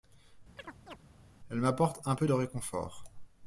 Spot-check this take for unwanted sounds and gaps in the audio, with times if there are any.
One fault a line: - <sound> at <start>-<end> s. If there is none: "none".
- chirp at 0.6-1.0 s